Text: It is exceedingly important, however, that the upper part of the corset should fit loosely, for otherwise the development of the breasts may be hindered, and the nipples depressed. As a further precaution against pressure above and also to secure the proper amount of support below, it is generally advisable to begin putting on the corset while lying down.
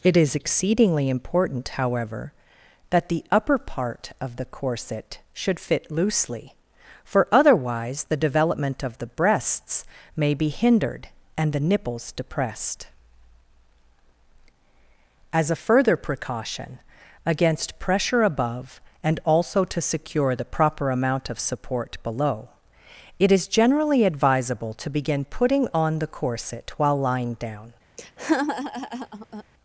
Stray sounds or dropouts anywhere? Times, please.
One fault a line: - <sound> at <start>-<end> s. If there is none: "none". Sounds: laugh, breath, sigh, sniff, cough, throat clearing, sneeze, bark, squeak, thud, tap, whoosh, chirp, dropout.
- laugh at 28.0-29.4 s